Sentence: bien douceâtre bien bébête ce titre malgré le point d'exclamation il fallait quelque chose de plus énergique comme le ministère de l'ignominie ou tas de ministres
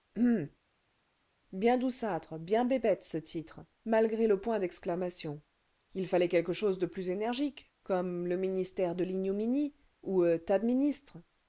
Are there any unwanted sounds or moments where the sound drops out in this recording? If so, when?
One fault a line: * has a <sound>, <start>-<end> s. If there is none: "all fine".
all fine